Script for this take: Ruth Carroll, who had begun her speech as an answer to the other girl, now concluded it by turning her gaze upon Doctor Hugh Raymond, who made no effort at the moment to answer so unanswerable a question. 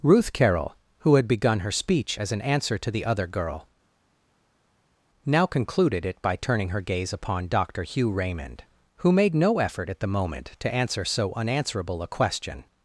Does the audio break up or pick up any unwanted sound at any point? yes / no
no